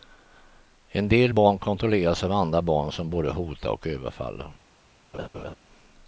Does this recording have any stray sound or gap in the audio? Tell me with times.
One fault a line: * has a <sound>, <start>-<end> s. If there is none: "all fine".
* has a laugh, 5.1-5.5 s